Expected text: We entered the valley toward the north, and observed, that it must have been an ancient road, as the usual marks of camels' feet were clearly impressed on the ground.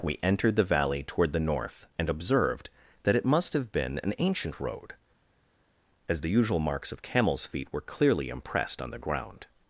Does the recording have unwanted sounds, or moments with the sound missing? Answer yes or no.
no